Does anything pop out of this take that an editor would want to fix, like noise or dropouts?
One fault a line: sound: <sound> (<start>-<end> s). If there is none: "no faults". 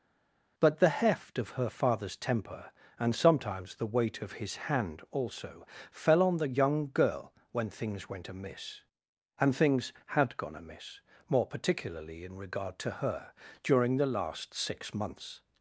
no faults